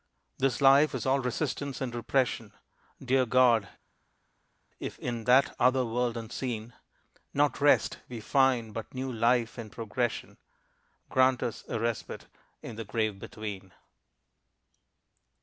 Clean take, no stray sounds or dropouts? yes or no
yes